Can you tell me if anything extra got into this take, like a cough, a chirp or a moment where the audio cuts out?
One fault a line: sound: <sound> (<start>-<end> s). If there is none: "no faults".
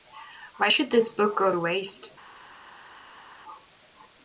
no faults